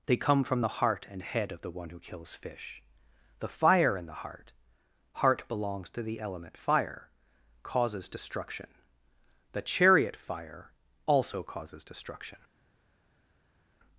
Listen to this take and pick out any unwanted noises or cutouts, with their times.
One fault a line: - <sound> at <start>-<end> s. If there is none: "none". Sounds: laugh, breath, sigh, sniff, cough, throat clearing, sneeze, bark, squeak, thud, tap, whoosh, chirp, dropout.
none